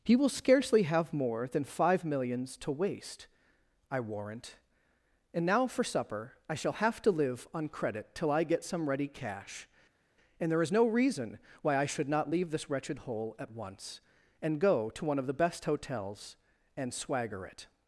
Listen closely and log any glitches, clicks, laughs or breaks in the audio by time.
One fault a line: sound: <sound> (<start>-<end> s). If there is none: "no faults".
no faults